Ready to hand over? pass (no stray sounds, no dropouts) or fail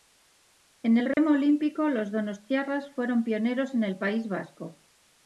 fail